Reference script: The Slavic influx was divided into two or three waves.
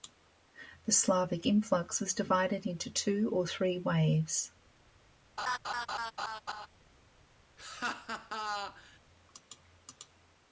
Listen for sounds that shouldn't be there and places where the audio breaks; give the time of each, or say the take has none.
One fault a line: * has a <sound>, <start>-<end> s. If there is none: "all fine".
* has a laugh, 5.4-6.7 s
* has a laugh, 7.6-9.0 s